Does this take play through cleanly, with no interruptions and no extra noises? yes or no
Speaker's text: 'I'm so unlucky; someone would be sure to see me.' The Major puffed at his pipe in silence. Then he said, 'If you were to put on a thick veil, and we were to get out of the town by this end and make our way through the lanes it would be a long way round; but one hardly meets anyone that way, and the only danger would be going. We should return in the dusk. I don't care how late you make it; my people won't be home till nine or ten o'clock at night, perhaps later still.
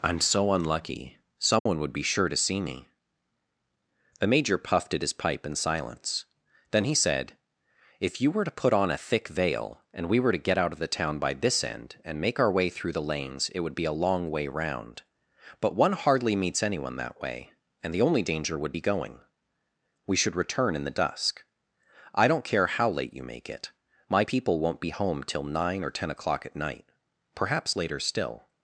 no